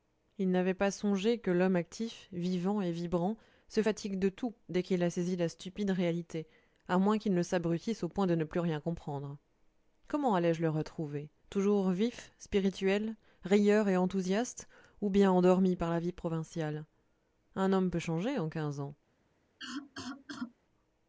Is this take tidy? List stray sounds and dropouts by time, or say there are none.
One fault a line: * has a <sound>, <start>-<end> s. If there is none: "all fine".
* has a cough, 19.6-20.5 s